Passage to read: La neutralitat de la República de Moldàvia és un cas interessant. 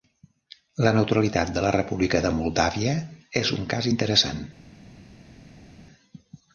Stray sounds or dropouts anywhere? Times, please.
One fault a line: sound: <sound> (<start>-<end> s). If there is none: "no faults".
no faults